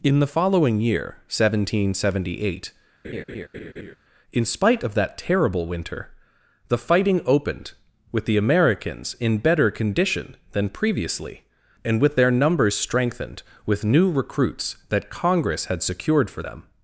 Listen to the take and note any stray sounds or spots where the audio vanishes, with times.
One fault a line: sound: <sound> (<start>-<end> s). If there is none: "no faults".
sound: laugh (3.0-4.0 s)